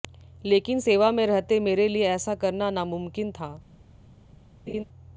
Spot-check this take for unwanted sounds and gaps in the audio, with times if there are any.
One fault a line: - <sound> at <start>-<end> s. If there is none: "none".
- laugh at 4.7-4.8 s